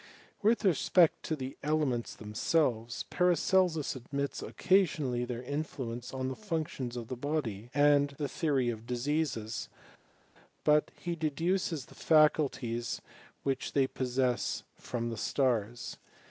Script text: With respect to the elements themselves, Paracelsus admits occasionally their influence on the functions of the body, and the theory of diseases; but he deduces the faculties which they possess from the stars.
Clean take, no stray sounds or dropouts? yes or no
yes